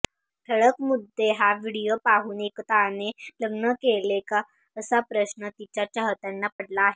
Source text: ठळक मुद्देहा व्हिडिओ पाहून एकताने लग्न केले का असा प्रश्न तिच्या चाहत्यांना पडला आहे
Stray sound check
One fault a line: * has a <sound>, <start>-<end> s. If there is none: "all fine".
* has a dropout, 6.5-6.6 s